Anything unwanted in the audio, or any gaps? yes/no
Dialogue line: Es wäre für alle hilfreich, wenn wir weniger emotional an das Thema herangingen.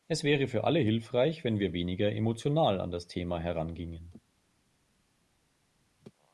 no